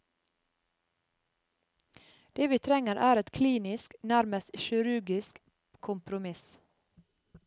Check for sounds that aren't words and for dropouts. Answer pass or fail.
pass